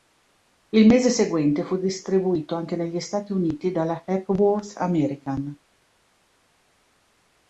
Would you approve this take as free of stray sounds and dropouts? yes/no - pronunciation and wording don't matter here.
yes